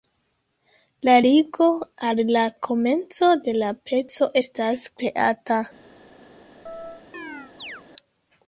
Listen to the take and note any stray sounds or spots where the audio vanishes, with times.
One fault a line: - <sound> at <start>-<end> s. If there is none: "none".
- chirp at 6.7-7.8 s